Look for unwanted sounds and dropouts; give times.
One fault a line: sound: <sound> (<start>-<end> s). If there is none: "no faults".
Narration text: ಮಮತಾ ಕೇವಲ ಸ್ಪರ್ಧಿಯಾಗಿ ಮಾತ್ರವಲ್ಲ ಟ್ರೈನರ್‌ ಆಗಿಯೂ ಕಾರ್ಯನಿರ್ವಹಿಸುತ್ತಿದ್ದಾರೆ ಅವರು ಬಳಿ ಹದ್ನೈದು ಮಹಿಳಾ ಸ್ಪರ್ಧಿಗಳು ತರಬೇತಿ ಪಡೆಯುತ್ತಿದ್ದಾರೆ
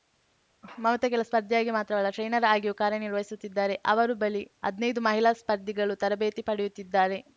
no faults